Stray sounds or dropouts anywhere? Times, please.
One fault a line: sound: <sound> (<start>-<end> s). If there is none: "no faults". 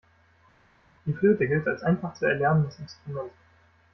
no faults